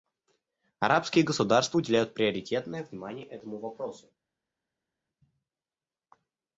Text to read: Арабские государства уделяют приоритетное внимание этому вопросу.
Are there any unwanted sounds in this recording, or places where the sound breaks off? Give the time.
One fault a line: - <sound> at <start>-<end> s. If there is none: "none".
none